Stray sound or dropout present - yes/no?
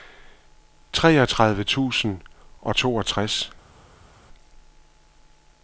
no